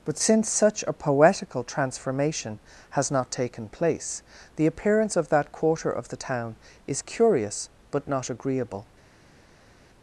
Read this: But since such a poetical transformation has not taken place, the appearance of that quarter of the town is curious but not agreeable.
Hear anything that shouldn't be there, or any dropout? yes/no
no